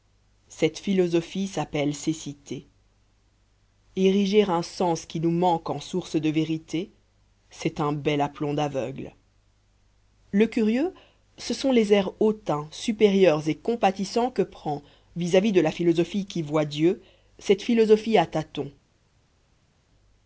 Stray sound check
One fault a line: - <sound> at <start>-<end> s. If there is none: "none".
none